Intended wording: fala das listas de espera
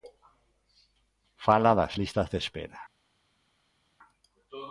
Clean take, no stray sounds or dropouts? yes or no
yes